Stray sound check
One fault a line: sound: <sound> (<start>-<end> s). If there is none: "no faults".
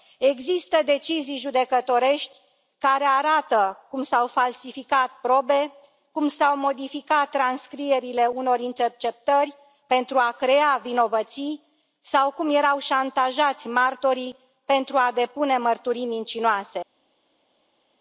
no faults